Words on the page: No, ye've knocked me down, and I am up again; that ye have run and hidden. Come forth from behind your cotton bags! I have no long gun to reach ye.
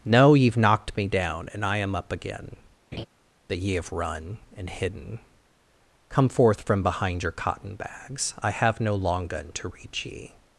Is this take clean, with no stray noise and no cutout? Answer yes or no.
no